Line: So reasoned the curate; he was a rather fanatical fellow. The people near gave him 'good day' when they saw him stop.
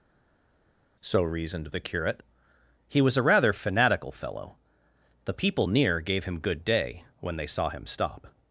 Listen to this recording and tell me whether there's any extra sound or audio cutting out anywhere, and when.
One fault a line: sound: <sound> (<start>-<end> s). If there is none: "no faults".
no faults